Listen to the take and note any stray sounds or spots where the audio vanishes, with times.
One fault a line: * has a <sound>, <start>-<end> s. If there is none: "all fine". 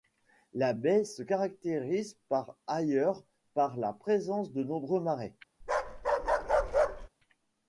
* has a bark, 5.6-7.1 s